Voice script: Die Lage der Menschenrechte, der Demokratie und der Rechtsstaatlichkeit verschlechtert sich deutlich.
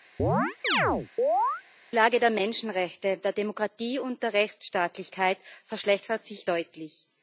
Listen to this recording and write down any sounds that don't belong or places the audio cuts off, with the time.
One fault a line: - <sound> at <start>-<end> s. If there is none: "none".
- chirp at 0.2-1.6 s